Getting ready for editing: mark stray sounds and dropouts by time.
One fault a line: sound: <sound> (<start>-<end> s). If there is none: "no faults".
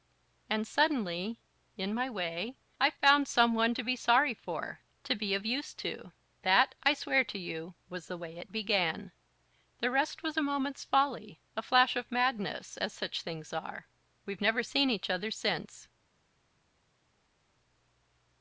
no faults